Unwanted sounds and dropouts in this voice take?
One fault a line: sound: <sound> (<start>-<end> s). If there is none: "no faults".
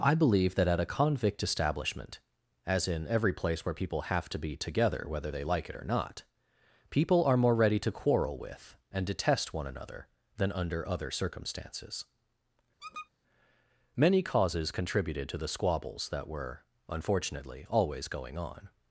sound: squeak (12.8-13.1 s)